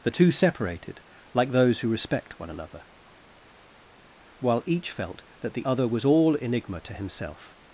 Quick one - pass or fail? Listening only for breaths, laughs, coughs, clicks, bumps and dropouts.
pass